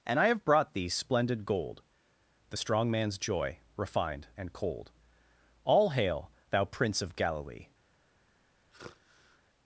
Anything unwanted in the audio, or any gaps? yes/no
yes